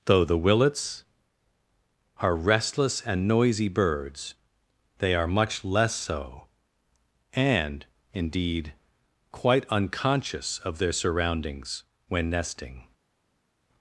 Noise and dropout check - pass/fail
pass